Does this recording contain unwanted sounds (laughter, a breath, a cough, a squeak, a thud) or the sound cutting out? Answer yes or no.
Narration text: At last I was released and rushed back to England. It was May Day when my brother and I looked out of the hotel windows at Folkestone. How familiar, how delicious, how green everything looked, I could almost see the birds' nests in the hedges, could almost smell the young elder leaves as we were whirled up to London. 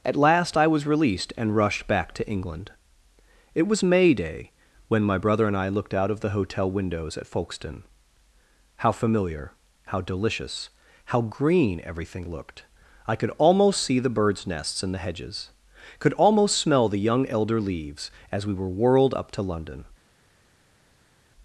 no